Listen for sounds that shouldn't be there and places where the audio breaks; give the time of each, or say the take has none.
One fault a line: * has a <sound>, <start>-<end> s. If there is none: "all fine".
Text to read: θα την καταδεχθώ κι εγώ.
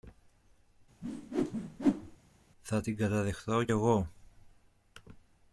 * has a whoosh, 1.0-2.2 s